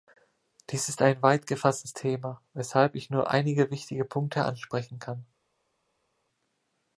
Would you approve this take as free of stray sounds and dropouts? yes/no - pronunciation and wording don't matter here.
yes